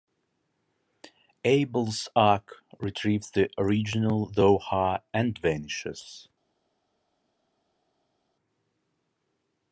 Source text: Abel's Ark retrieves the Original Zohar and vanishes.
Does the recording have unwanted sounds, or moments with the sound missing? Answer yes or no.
no